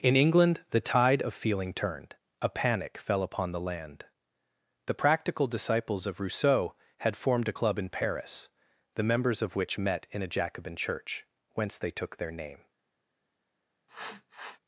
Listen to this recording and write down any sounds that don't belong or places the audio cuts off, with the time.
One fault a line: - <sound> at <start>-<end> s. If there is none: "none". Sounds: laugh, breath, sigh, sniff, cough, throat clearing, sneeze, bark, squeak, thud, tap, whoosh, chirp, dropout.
- sniff at 13.9-14.6 s